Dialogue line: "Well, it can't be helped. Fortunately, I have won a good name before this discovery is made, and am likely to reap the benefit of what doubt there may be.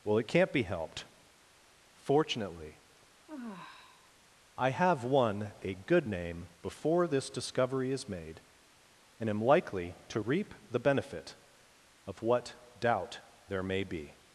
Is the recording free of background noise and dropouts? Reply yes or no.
no